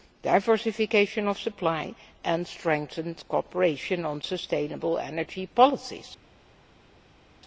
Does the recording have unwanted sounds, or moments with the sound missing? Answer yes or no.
no